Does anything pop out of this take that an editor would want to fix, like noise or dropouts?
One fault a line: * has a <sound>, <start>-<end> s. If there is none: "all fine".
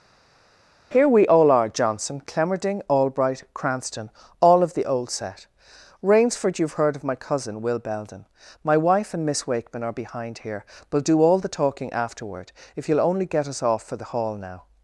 all fine